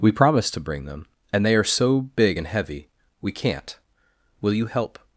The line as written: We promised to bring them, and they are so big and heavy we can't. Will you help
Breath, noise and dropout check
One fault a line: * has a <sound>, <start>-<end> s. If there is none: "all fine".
all fine